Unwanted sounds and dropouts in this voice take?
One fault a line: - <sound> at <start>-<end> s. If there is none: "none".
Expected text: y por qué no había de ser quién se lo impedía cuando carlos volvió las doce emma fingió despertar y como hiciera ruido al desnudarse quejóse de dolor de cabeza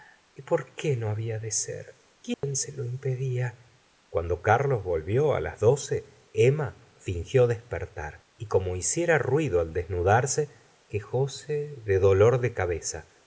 - dropout at 2.3-2.4 s